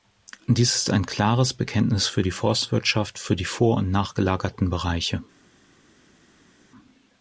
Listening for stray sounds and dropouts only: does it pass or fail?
pass